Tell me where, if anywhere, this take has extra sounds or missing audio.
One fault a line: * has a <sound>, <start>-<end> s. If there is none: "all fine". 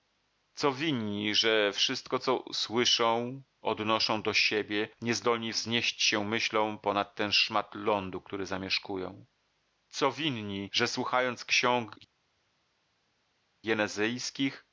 all fine